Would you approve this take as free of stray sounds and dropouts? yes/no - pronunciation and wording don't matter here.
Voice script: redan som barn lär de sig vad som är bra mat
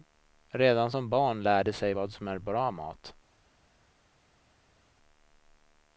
yes